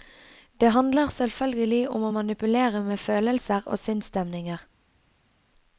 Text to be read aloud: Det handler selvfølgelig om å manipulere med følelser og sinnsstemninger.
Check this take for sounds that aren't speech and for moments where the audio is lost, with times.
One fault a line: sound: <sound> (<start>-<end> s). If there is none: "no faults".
no faults